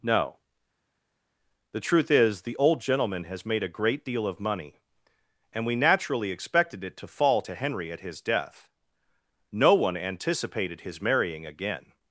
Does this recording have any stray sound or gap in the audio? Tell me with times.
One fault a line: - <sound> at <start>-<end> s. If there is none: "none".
none